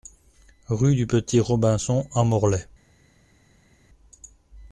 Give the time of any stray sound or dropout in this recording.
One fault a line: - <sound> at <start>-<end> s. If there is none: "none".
none